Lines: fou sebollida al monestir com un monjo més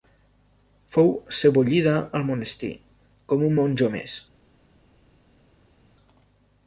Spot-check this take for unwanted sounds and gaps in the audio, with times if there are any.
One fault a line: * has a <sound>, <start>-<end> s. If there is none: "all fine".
all fine